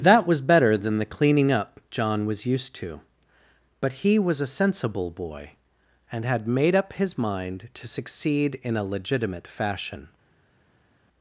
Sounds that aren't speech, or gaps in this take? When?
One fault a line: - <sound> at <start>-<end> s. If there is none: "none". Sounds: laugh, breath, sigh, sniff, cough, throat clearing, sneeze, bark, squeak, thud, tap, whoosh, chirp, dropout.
none